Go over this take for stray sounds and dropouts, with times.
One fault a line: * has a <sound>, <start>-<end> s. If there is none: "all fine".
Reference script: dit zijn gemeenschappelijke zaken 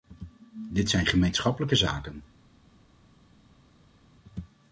all fine